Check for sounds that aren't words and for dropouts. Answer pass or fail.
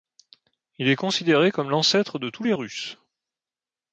pass